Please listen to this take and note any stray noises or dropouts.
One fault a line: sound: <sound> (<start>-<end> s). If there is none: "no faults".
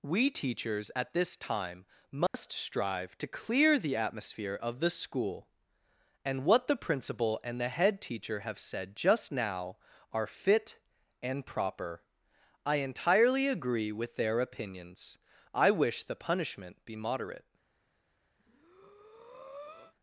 sound: dropout (2.3-2.3 s)
sound: breath (18.4-19.9 s)